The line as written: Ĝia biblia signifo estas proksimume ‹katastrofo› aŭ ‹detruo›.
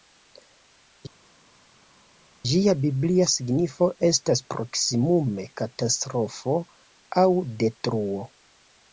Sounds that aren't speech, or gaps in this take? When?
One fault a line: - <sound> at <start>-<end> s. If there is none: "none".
none